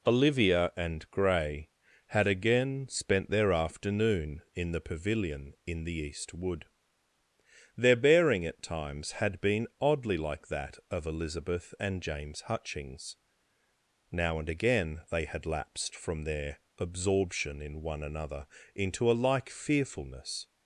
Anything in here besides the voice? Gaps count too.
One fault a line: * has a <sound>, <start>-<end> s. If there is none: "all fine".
all fine